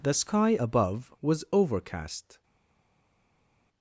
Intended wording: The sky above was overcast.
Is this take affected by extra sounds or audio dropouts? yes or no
no